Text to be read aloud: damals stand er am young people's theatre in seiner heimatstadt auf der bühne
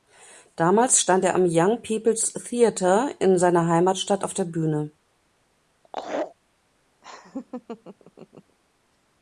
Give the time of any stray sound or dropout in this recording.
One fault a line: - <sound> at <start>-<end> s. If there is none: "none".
- laugh at 5.8-6.3 s
- laugh at 7.0-8.6 s